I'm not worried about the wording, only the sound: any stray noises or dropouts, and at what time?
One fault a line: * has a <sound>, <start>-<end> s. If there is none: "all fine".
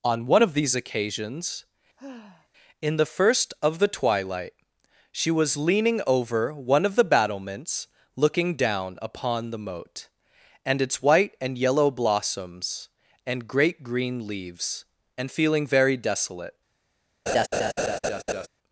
* has a sigh, 2.0-2.5 s
* has a laugh, 17.3-18.5 s